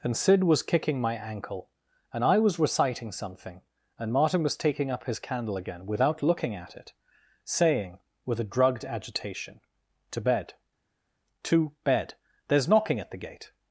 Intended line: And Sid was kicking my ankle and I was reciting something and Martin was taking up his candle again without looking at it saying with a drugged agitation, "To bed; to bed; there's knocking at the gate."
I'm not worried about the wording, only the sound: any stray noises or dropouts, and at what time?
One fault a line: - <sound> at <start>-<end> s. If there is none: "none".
none